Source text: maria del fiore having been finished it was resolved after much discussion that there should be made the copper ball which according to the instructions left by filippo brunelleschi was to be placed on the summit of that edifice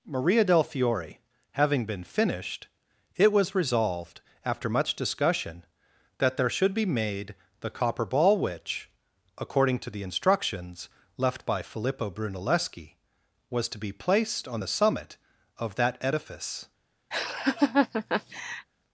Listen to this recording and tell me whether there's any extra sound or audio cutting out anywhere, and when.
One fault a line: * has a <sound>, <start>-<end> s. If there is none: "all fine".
* has a laugh, 17.1-18.7 s